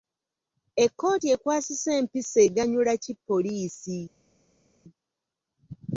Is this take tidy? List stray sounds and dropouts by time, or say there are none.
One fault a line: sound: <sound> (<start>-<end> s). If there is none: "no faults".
no faults